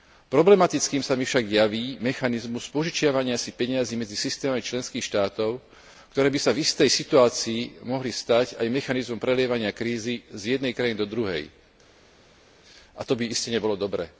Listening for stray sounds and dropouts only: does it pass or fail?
pass